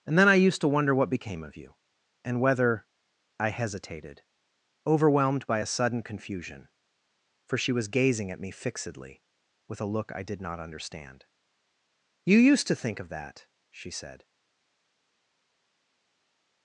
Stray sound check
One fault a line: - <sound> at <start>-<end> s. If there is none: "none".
none